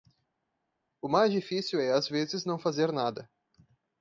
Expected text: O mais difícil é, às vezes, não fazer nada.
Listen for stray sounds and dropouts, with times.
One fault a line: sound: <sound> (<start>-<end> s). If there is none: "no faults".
no faults